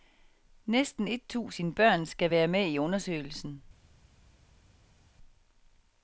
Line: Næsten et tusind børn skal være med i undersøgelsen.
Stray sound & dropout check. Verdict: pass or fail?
pass